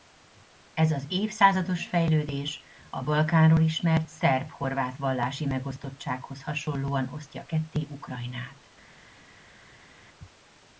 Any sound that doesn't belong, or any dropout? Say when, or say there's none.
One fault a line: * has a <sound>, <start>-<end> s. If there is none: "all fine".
all fine